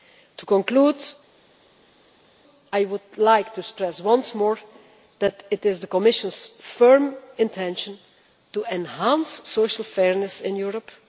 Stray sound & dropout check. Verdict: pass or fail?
pass